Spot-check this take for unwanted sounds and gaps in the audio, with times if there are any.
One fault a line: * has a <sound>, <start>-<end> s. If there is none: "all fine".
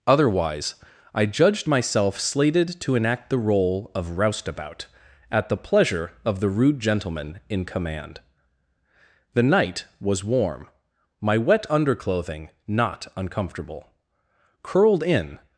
all fine